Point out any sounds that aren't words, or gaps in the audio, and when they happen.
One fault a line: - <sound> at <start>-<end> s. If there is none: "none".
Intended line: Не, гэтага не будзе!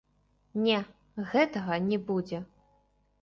none